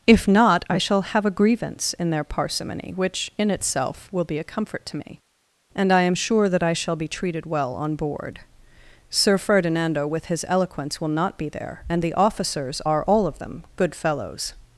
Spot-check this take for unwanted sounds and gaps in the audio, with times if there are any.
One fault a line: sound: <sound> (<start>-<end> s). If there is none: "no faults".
no faults